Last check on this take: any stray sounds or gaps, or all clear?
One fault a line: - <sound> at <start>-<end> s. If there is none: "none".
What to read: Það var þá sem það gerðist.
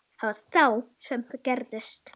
none